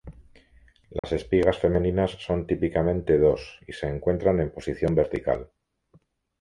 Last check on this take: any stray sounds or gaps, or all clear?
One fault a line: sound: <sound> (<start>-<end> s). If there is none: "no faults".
sound: dropout (1.0-1.0 s)